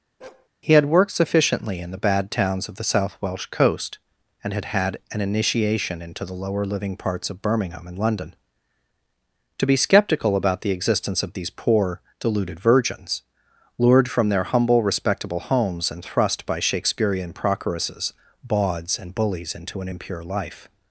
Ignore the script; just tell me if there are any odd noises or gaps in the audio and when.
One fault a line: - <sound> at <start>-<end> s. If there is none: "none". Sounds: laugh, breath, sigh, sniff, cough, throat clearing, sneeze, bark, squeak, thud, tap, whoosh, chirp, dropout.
- bark at 0.2-0.5 s